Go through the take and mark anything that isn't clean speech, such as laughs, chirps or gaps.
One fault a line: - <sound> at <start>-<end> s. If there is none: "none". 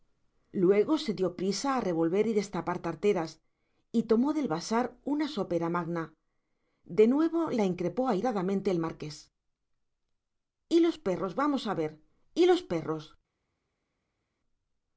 none